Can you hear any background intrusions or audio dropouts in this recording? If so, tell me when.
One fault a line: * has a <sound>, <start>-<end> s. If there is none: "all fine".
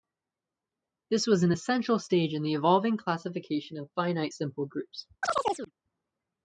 * has a chirp, 5.2-5.7 s